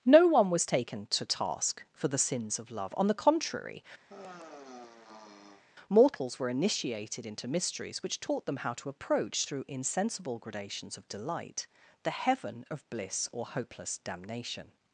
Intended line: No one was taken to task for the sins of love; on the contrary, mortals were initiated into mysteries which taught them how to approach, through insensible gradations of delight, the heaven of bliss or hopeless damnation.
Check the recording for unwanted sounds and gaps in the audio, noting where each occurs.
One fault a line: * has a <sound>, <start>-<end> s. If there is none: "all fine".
* has a sigh, 4.1-5.6 s